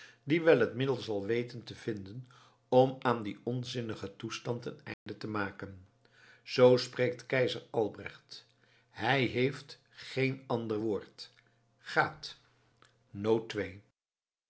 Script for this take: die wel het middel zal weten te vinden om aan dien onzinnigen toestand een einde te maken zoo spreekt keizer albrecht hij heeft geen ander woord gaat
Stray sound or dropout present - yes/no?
yes